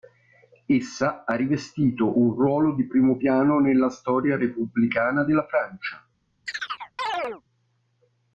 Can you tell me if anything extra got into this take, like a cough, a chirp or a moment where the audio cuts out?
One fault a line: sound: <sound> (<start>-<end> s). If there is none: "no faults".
sound: chirp (6.5-7.4 s)